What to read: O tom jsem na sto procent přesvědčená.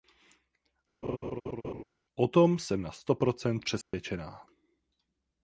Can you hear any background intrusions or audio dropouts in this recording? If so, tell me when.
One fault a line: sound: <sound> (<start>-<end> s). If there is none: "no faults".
sound: laugh (1.0-1.8 s)
sound: dropout (3.8-3.9 s)